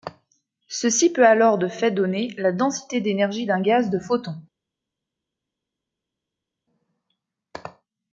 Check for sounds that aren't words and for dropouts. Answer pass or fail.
pass